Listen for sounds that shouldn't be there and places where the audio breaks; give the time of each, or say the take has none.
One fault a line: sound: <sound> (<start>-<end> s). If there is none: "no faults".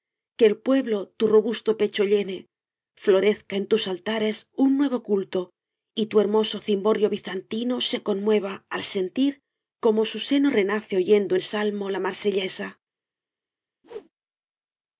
sound: whoosh (13.8-14.1 s)